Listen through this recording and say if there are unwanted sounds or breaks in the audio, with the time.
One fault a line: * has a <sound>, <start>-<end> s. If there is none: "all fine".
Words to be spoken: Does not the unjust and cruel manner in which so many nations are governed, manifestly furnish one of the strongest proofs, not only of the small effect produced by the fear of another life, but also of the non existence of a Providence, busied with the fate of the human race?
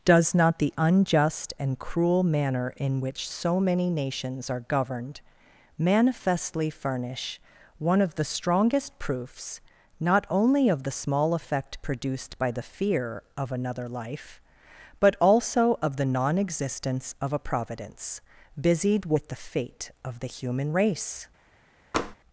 * has a tap, 21.9-22.2 s